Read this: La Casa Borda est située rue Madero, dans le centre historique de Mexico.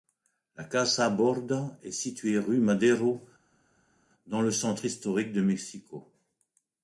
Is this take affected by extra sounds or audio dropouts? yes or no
no